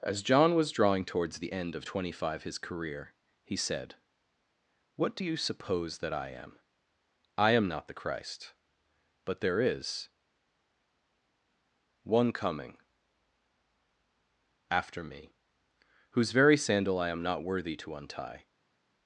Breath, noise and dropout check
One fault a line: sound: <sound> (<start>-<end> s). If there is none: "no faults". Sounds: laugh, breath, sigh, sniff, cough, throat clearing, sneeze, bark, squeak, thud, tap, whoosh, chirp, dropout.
no faults